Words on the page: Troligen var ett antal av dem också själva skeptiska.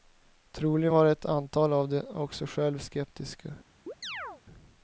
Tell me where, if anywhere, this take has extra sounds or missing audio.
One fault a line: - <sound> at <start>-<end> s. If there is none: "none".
- chirp at 3.9-4.4 s